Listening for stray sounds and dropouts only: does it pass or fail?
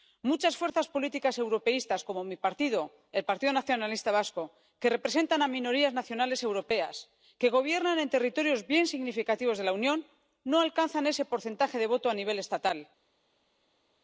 pass